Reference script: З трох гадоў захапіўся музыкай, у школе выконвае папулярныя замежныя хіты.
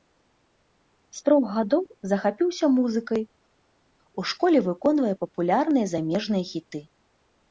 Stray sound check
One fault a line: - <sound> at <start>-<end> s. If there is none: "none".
none